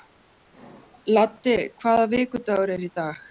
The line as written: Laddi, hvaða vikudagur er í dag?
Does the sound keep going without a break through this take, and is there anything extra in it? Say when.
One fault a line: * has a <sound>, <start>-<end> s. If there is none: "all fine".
all fine